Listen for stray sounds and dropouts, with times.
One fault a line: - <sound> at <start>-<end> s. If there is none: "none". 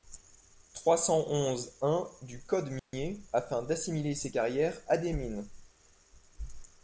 - dropout at 2.8-2.9 s